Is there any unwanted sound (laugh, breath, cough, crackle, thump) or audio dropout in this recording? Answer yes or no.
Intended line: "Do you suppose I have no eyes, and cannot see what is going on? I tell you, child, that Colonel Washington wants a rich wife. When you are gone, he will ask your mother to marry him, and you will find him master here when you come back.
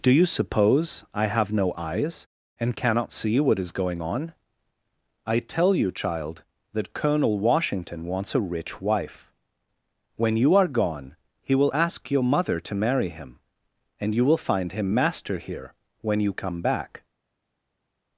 no